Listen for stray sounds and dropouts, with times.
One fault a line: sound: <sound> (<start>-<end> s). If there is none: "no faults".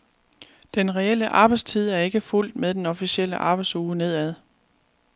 no faults